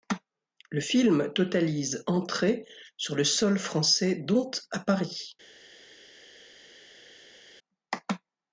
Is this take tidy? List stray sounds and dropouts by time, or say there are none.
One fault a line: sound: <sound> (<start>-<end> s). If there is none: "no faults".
no faults